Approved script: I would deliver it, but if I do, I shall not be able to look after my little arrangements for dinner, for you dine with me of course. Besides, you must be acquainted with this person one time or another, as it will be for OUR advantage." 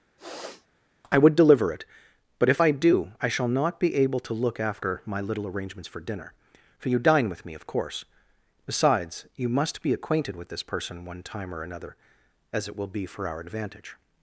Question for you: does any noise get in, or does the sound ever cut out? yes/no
yes